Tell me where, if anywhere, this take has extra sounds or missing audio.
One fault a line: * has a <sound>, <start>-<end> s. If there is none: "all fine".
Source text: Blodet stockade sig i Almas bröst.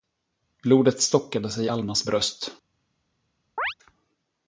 * has a chirp, 3.6-3.7 s